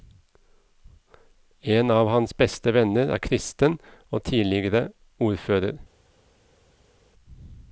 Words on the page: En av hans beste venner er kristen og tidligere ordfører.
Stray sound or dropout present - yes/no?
no